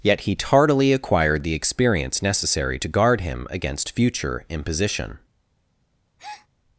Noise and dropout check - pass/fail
fail